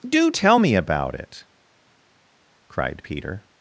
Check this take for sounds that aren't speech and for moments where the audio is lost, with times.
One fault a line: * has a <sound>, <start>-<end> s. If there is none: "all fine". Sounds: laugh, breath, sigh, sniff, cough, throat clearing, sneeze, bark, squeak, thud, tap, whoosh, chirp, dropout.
all fine